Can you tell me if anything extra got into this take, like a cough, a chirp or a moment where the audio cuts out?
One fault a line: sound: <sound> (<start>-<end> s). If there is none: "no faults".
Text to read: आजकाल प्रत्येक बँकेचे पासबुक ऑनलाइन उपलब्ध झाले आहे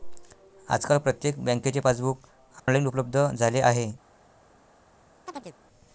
sound: dropout (2.6-2.7 s)
sound: chirp (5.3-5.6 s)